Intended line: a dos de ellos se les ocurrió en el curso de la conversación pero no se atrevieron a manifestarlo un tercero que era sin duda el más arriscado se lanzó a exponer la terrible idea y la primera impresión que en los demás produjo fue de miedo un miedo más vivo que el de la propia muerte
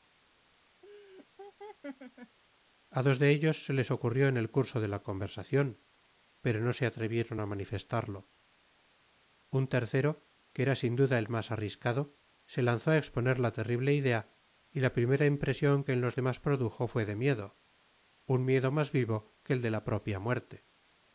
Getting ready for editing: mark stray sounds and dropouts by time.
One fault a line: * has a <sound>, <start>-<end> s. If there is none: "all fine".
* has a laugh, 0.8-2.4 s